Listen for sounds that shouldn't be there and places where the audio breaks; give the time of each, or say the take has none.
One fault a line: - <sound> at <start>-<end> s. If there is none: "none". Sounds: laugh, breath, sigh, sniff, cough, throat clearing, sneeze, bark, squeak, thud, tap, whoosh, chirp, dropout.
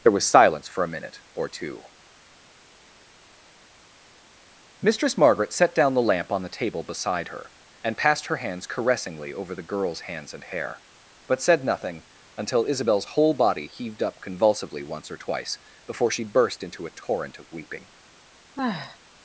- sigh at 18.6-19.0 s